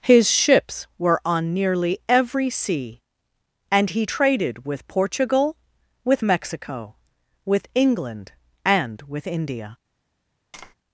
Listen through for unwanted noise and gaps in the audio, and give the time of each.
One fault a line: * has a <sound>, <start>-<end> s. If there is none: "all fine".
* has a tap, 10.5-10.7 s